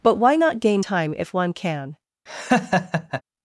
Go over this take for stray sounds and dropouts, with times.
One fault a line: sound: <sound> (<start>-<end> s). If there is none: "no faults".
sound: laugh (2.3-3.2 s)